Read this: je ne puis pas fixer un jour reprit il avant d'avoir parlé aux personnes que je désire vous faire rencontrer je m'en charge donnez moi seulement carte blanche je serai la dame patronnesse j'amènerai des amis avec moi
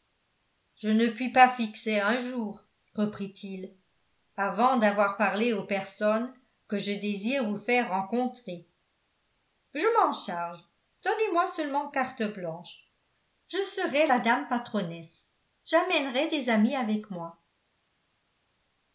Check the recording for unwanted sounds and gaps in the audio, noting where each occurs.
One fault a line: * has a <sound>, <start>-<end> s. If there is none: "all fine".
all fine